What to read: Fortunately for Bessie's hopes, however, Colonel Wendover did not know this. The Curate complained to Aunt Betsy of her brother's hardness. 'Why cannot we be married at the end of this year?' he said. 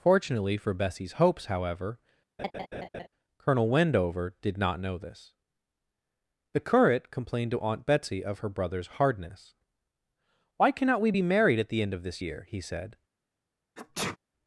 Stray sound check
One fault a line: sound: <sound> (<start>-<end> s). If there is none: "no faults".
sound: laugh (2.4-3.1 s)
sound: sneeze (13.8-14.2 s)